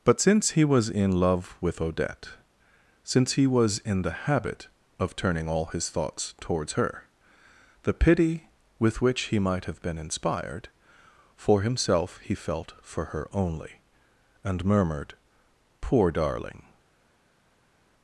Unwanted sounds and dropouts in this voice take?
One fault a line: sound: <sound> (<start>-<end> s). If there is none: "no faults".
no faults